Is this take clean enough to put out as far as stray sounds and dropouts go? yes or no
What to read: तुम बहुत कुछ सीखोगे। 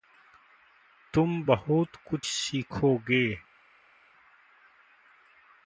yes